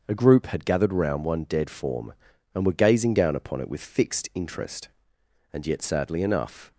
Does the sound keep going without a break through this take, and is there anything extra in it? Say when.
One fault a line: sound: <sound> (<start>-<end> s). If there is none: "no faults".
no faults